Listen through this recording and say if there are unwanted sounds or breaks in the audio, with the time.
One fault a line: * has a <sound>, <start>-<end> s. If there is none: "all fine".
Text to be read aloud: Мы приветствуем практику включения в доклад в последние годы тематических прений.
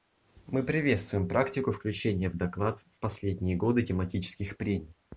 all fine